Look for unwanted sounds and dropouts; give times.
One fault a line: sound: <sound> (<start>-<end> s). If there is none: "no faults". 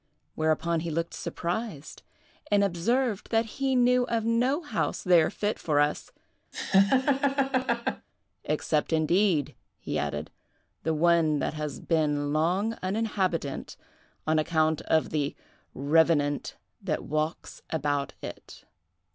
sound: laugh (6.5-8.1 s)